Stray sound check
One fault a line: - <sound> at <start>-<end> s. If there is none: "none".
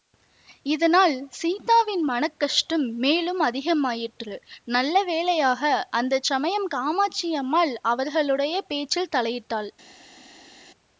none